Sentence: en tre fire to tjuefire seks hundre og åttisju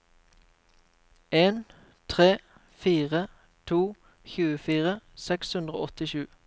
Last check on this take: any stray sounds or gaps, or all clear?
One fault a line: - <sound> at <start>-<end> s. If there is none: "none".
none